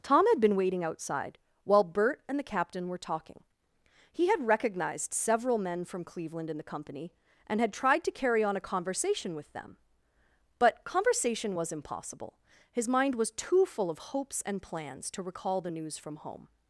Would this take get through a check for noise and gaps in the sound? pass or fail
pass